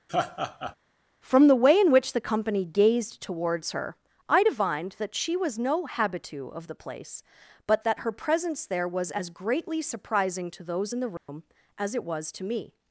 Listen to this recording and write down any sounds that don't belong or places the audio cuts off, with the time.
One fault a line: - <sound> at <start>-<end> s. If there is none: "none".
- laugh at 0.1-0.8 s
- dropout at 11.2-11.3 s